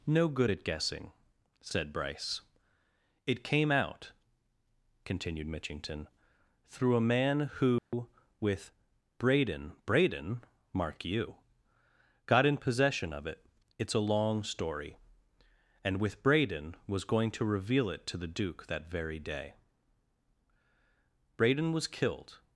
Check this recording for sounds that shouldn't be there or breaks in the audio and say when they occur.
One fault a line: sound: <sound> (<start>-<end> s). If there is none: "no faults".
sound: dropout (7.8-7.9 s)